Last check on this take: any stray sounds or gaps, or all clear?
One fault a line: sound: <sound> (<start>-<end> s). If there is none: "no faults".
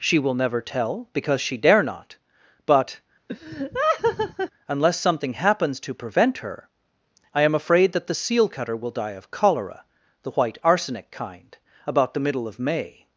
sound: laugh (3.3-4.5 s)